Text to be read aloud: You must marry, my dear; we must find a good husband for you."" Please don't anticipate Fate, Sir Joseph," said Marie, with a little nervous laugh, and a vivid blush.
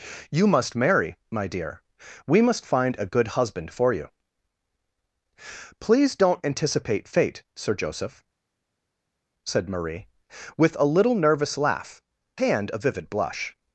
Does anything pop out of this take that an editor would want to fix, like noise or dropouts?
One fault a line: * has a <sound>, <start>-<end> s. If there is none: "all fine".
all fine